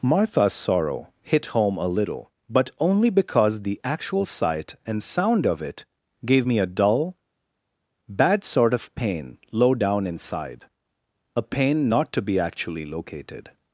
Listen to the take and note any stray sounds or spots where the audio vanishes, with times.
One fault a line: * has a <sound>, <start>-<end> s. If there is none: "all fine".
all fine